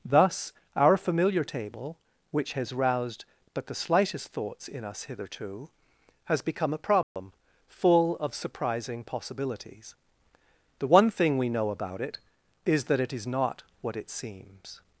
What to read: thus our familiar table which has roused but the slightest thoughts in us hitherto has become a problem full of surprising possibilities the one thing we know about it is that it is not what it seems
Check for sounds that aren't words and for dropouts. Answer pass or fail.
fail